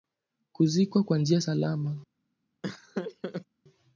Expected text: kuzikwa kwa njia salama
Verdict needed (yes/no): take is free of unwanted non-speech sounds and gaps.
no